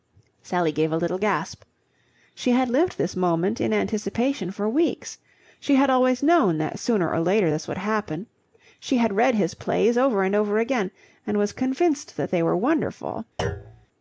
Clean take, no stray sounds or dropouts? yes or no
no